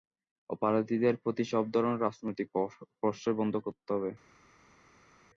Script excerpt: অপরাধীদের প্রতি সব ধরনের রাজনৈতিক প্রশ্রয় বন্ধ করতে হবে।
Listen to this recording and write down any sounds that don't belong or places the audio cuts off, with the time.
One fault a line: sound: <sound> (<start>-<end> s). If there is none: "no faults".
no faults